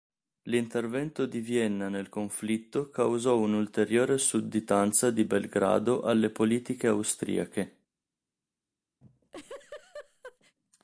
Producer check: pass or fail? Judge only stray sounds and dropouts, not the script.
fail